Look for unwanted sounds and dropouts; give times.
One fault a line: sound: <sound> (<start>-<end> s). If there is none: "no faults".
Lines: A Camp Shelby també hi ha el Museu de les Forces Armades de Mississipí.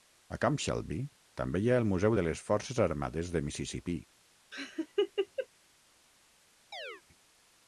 sound: laugh (4.5-5.5 s)
sound: chirp (6.7-7.0 s)